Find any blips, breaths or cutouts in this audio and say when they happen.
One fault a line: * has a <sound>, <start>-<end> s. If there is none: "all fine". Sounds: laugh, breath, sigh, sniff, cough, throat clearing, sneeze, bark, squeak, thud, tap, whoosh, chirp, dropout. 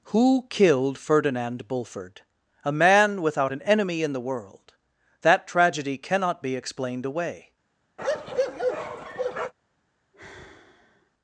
* has a bark, 8.0-9.5 s
* has a sigh, 10.1-11.1 s